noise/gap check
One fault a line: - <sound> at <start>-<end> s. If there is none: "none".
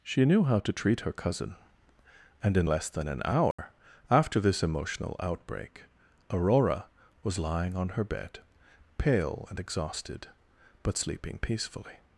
- dropout at 3.5-3.6 s